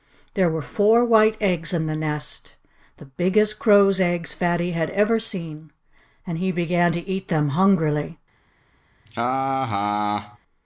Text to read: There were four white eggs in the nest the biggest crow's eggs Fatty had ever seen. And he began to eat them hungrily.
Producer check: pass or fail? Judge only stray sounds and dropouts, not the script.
fail